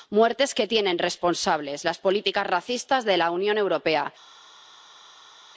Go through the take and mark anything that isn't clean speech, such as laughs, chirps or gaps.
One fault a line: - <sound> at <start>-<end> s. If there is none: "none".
none